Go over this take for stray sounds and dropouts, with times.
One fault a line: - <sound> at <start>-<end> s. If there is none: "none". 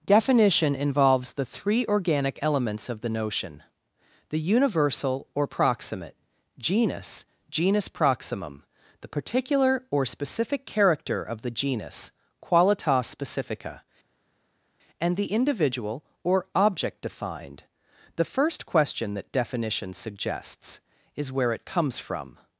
none